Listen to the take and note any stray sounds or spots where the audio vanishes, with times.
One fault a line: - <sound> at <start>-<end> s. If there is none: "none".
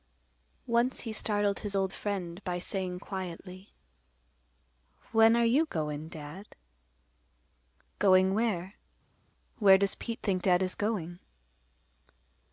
none